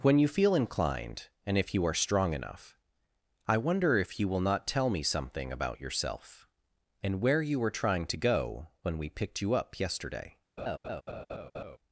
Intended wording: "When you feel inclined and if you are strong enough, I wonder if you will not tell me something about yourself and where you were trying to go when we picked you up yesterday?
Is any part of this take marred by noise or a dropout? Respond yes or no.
yes